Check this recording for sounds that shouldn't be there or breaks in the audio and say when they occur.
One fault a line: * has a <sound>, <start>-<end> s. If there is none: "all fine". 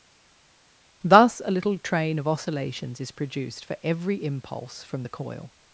all fine